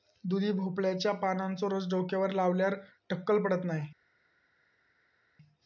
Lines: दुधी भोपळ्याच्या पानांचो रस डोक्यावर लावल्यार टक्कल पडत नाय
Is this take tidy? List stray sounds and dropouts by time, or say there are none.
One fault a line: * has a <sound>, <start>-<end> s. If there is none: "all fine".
all fine